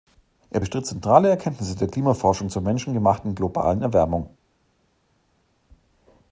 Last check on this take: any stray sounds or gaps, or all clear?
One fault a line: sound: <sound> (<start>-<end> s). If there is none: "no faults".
no faults